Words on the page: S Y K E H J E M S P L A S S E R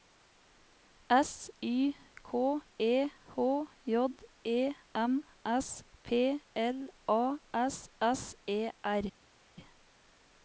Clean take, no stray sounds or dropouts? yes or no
yes